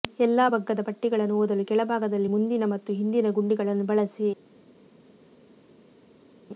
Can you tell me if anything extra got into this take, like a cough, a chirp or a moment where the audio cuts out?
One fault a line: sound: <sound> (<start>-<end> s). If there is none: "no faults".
no faults